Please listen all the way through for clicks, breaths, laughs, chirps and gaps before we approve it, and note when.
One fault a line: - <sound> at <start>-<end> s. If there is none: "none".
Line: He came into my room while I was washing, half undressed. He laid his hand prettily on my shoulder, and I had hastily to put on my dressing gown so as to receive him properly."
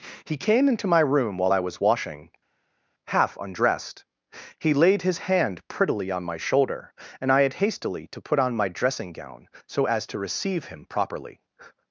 none